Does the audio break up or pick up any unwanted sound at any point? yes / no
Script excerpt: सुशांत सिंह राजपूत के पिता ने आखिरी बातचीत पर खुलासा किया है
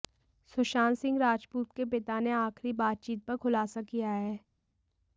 no